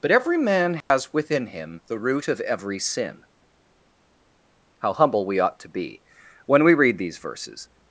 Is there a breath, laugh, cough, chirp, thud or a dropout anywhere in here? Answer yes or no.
yes